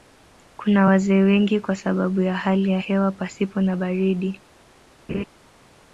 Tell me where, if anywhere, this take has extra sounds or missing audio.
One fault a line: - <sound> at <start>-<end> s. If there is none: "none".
- laugh at 5.1-5.2 s